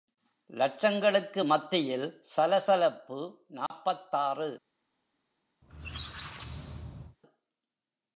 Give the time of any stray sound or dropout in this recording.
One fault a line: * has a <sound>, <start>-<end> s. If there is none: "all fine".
* has a dropout, 3.7-3.7 s
* has a squeak, 5.6-7.2 s